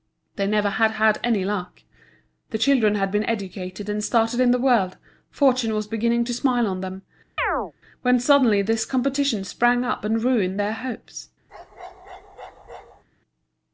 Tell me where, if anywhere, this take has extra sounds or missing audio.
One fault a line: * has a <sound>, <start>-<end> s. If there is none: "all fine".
* has a chirp, 7.4-7.7 s
* has a bark, 11.5-13.0 s